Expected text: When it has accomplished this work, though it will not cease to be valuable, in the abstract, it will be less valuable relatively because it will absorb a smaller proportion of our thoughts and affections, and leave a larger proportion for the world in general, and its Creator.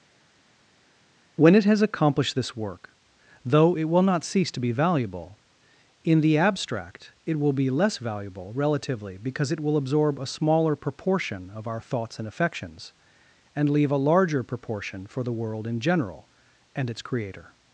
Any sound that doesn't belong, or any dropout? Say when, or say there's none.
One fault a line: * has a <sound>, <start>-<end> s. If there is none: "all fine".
all fine